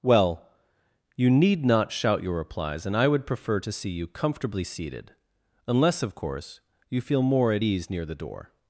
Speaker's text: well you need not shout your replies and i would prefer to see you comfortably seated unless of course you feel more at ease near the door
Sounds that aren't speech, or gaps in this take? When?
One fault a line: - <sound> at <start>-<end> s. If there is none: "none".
none